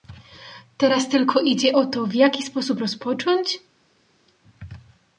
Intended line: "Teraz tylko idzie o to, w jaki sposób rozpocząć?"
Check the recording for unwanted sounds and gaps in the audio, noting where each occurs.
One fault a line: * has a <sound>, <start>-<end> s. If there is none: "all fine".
all fine